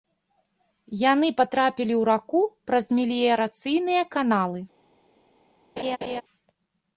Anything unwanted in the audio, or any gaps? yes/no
yes